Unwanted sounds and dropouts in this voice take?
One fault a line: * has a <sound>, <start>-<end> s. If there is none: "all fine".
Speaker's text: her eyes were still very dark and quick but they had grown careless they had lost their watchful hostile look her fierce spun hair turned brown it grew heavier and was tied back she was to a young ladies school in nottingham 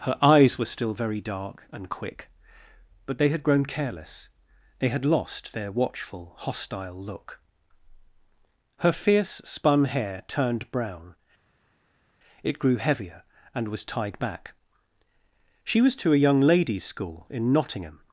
all fine